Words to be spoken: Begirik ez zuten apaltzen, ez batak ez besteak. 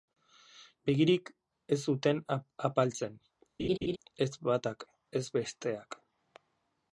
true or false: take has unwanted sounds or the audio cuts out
true